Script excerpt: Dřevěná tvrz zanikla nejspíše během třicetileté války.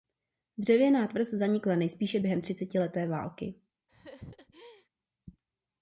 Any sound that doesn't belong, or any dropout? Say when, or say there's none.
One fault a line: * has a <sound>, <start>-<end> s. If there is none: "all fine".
* has a laugh, 3.9-4.9 s